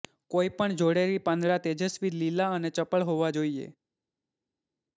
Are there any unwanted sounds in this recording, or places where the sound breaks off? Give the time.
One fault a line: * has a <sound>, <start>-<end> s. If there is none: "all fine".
all fine